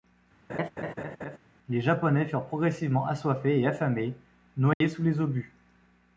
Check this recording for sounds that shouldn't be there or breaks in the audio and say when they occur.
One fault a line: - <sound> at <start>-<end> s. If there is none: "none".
- laugh at 0.5-1.4 s
- dropout at 4.7-4.8 s